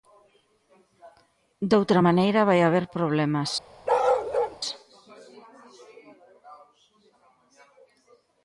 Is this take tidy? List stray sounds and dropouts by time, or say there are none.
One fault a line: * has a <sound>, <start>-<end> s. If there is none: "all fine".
* has a bark, 3.9-4.6 s